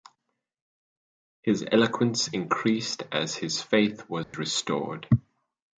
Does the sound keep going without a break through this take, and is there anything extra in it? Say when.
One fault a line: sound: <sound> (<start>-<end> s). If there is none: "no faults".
sound: dropout (4.2-4.3 s)